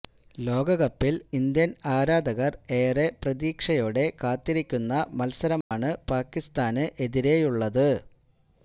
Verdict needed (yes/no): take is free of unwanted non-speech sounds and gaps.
no